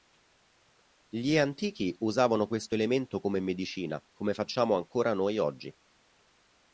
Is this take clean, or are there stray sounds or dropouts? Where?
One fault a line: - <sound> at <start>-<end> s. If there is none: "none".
none